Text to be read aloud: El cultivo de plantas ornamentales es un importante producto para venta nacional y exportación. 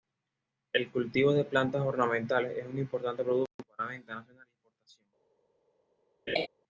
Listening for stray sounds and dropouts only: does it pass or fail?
fail